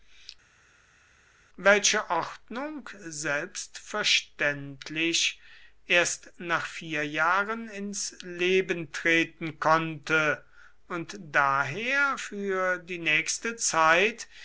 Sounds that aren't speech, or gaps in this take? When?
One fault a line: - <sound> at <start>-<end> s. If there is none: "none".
none